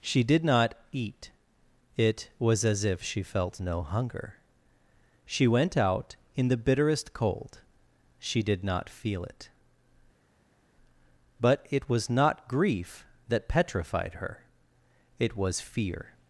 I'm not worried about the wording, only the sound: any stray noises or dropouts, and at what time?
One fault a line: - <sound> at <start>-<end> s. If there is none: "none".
none